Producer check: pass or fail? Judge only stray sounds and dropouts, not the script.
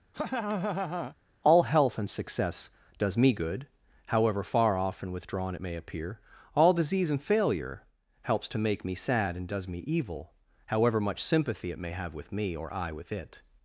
fail